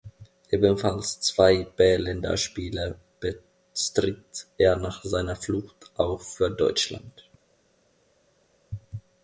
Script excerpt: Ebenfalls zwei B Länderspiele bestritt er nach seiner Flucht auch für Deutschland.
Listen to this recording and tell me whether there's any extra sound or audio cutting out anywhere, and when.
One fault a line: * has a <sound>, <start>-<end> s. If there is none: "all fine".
all fine